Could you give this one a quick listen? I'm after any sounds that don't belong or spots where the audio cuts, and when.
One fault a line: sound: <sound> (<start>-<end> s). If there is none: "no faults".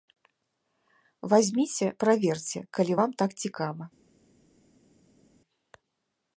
no faults